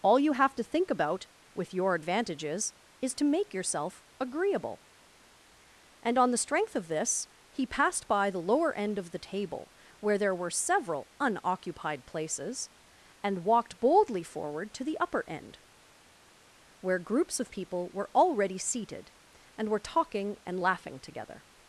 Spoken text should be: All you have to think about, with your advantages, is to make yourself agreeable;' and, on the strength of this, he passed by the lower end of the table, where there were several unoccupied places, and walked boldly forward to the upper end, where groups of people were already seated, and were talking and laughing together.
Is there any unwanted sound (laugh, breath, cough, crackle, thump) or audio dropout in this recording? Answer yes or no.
no